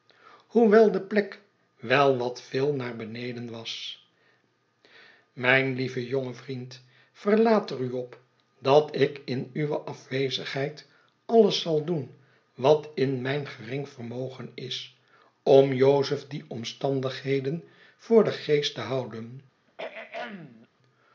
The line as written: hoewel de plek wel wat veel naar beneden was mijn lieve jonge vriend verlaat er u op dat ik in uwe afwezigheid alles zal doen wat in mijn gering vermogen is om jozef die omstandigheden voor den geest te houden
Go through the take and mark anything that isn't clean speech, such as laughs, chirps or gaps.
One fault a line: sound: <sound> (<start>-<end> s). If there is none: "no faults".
sound: throat clearing (19.7-20.7 s)